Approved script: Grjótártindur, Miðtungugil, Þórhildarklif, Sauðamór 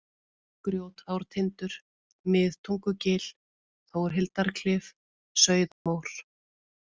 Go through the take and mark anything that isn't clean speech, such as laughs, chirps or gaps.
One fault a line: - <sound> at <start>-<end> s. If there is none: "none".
- dropout at 5.7-5.9 s